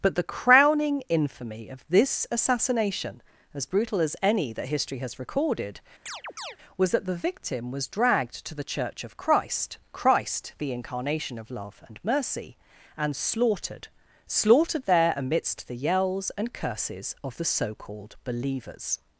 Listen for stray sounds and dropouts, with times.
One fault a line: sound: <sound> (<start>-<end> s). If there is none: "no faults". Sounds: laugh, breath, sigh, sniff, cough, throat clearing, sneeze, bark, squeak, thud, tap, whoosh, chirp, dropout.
sound: chirp (6.1-6.6 s)